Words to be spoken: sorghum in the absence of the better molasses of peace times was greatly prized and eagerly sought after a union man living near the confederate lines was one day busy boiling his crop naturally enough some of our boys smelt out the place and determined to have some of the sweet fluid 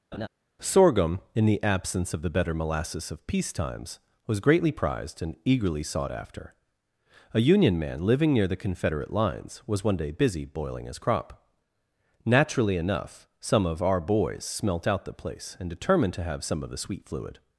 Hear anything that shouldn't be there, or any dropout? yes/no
yes